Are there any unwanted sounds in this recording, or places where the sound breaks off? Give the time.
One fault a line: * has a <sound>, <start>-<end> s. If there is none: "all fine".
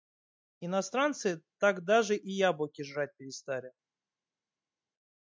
all fine